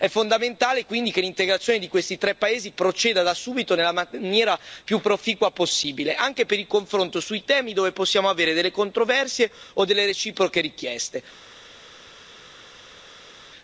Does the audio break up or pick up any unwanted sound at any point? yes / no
no